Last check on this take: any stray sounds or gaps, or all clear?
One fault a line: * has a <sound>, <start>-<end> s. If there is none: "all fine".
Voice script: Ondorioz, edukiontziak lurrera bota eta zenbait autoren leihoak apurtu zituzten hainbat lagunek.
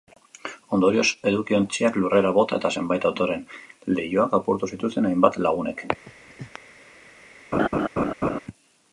* has a laugh, 6.1-6.6 s
* has a laugh, 7.5-8.4 s